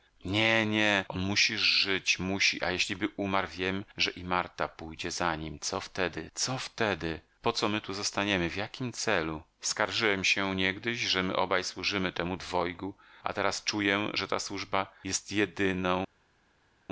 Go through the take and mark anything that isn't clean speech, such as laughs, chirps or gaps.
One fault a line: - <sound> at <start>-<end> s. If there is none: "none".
none